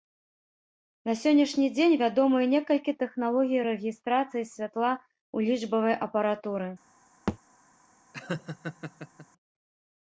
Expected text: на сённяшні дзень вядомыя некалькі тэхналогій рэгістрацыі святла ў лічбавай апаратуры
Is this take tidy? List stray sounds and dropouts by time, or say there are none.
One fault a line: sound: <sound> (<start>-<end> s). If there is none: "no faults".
sound: thud (7.3-7.4 s)
sound: laugh (8.1-9.3 s)